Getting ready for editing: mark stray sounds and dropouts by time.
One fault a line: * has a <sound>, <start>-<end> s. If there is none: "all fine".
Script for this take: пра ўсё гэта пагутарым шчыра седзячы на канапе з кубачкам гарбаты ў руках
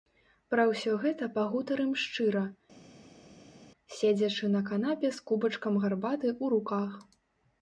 all fine